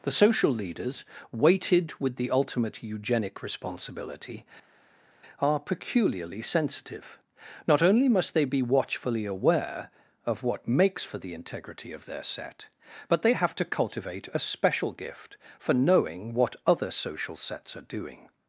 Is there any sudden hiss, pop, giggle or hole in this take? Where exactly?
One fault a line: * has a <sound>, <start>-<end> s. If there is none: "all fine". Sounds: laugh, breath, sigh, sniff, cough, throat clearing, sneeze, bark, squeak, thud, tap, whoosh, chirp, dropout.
all fine